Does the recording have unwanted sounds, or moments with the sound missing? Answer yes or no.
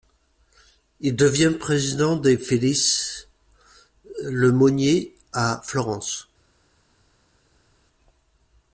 no